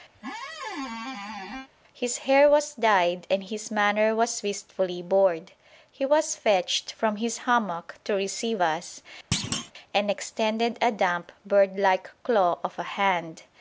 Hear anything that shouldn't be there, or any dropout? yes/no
yes